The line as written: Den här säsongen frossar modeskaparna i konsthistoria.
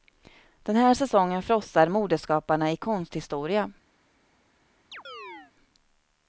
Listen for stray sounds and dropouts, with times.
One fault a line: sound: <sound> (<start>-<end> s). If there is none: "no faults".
sound: chirp (4.9-5.5 s)